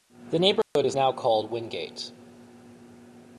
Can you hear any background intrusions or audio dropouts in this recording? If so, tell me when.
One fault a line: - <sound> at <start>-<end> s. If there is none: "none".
- dropout at 0.6-0.8 s